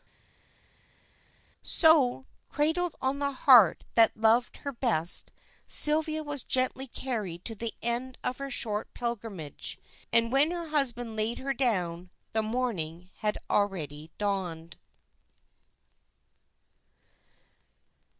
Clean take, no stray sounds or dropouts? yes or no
yes